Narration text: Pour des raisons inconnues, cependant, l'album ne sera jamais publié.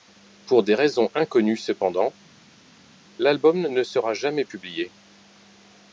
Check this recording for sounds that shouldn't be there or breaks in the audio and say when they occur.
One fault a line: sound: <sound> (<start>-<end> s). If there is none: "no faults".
no faults